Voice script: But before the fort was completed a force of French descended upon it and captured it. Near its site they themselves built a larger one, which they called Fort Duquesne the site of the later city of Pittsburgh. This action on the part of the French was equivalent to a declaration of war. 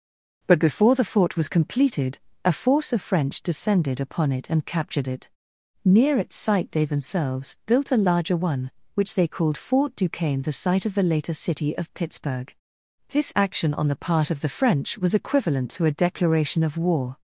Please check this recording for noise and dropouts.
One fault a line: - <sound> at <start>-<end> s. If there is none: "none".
none